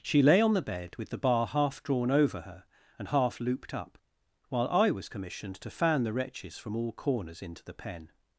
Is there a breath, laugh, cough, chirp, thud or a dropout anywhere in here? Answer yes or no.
no